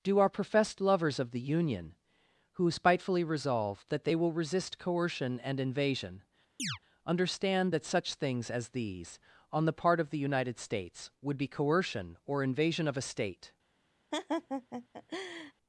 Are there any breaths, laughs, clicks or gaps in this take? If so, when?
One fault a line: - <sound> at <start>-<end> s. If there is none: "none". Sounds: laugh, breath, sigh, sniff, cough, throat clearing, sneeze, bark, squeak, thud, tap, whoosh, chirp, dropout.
- chirp at 6.6-6.8 s
- laugh at 14.1-15.5 s